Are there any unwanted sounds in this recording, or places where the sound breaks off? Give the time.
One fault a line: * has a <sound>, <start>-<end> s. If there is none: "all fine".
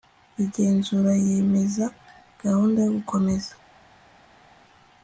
all fine